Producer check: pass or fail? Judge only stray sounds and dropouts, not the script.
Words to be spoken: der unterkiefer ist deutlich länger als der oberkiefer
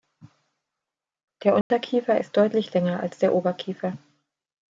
fail